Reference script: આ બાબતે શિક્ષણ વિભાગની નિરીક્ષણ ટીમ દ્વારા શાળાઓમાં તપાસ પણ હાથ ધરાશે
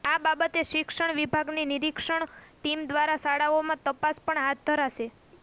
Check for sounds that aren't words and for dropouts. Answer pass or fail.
pass